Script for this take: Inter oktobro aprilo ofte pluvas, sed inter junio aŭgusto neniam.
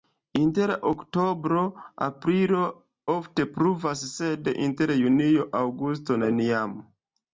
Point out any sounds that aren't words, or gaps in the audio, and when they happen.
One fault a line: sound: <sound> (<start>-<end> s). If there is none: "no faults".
no faults